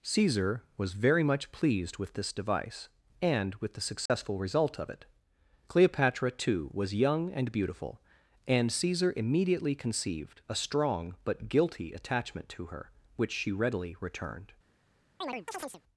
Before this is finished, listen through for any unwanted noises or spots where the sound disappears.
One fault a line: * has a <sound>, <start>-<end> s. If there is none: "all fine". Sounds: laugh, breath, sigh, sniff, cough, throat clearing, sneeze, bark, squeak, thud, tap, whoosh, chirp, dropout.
* has a dropout, 4.1-4.1 s
* has a chirp, 15.2-15.8 s